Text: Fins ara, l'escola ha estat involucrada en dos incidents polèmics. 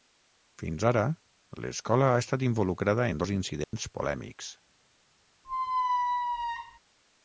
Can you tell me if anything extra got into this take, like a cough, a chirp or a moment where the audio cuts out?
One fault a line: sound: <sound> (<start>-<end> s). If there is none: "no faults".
sound: dropout (3.6-3.7 s)
sound: squeak (5.4-6.8 s)